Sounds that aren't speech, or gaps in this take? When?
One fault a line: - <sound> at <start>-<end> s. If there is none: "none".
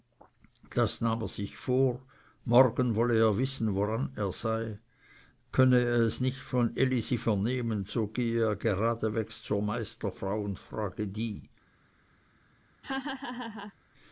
- laugh at 12.8-13.7 s